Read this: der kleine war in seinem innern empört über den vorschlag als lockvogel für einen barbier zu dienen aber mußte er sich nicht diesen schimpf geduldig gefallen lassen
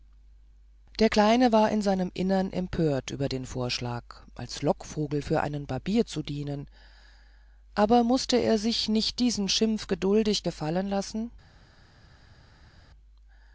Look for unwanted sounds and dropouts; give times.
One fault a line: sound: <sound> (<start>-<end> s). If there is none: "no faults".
no faults